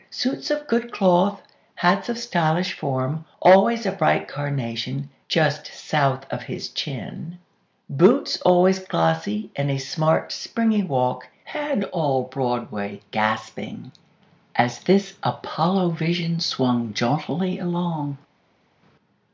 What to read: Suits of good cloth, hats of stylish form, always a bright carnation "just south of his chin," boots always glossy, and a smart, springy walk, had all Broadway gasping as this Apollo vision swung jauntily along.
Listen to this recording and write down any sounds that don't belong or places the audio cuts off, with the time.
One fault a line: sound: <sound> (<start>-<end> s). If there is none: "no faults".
no faults